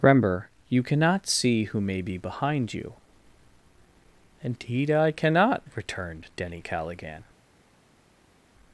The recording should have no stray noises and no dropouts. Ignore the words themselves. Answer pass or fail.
pass